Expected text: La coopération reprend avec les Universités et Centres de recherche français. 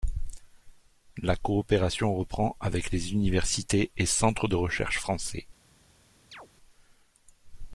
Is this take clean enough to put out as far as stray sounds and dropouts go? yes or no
no